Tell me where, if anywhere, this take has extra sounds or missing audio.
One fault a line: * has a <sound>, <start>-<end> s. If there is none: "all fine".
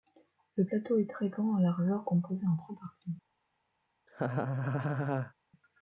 * has a laugh, 4.1-5.3 s